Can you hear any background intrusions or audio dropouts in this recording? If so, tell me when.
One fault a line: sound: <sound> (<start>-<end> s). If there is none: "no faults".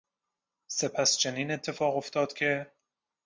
no faults